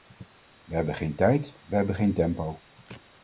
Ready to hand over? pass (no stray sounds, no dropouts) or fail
pass